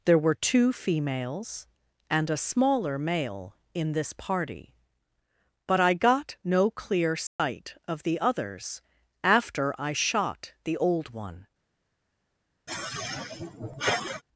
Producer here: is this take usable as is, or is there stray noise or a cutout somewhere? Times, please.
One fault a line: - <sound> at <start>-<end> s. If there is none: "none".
- dropout at 7.3-7.4 s
- sigh at 12.7-14.2 s